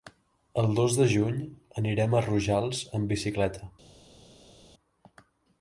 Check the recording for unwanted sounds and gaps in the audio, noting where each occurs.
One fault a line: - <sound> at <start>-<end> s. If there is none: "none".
none